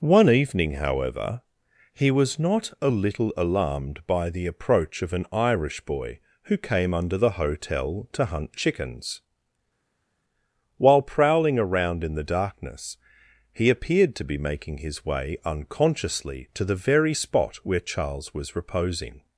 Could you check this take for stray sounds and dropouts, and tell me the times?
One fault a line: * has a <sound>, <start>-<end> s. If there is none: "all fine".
all fine